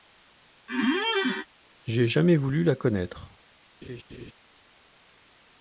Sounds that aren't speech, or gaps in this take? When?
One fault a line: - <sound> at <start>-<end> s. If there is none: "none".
- squeak at 0.7-1.5 s
- laugh at 3.8-4.3 s